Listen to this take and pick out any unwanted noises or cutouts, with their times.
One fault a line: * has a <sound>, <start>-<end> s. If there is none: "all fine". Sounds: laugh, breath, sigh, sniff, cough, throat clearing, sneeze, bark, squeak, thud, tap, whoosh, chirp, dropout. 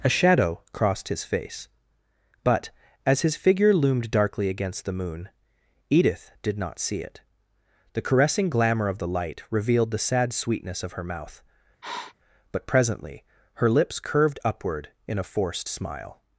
* has a sniff, 11.8-12.1 s